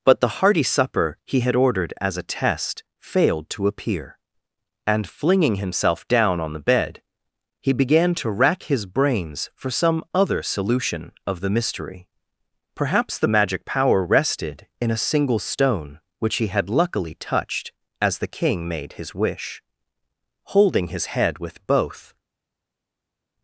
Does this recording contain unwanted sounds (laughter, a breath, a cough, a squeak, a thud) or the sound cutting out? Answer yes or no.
no